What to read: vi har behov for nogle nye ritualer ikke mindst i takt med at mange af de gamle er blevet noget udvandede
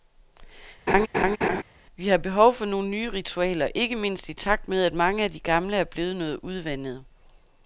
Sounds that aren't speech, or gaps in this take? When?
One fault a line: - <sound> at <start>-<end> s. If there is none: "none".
- laugh at 0.9-1.6 s